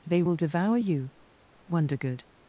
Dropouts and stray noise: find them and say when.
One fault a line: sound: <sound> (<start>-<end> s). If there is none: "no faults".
no faults